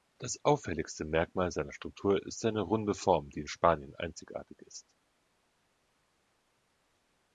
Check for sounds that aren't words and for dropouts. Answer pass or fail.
pass